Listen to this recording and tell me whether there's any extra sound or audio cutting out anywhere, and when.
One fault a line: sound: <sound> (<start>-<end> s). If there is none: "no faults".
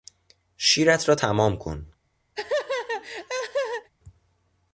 sound: laugh (2.3-3.9 s)